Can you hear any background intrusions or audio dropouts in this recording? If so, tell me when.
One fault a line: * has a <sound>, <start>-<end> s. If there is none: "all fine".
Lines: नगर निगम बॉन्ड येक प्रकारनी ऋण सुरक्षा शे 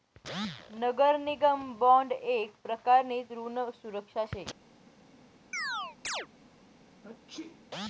* has a chirp, 5.5-6.3 s
* has a sneeze, 7.0-7.7 s